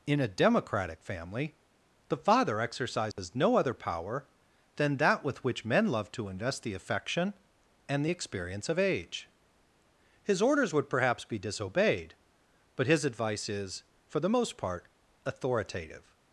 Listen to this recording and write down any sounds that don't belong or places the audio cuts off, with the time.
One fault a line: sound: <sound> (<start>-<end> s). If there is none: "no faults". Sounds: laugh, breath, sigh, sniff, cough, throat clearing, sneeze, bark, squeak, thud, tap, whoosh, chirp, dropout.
sound: dropout (3.1-3.2 s)